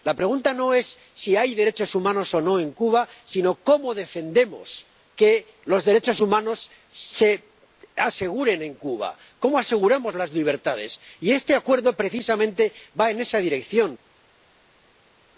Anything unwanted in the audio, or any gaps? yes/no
no